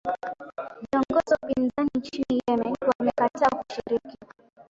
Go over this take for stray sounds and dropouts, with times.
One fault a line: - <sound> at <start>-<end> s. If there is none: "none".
none